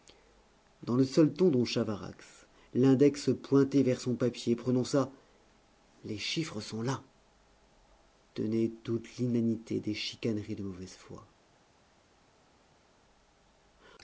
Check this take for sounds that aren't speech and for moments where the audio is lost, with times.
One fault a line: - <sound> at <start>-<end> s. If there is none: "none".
none